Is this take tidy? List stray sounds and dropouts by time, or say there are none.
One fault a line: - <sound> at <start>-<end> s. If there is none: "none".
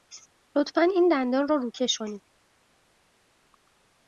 none